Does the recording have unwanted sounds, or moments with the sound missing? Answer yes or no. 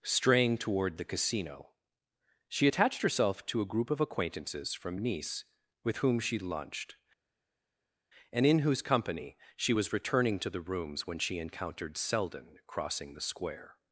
no